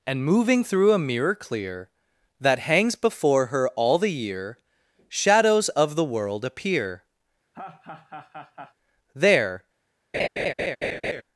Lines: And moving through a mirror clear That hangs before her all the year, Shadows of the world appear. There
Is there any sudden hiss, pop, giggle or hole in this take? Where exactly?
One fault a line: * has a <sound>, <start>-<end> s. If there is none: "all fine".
* has a laugh, 7.5-8.7 s
* has a laugh, 10.1-11.2 s